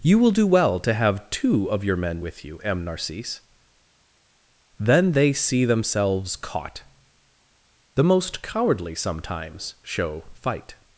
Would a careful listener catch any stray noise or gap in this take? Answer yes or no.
no